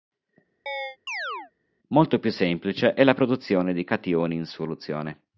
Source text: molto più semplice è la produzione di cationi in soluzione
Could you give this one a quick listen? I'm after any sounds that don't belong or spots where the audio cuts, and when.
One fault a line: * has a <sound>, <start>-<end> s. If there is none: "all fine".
* has a chirp, 0.7-1.5 s